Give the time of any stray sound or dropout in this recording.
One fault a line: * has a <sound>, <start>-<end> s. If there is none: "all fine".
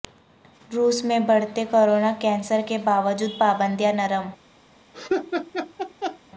* has a laugh, 4.9-6.2 s